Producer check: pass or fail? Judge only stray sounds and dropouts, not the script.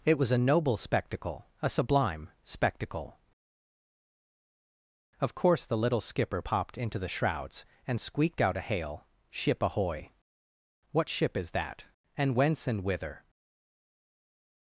pass